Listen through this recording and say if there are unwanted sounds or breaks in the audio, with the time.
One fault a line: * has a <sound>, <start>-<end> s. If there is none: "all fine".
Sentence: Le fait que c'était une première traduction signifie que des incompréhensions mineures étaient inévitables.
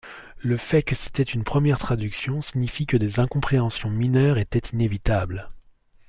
all fine